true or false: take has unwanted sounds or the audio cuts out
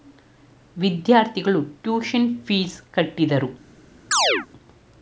true